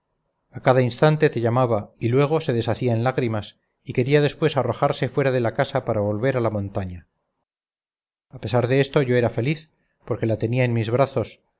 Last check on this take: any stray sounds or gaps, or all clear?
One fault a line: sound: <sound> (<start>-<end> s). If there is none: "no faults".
no faults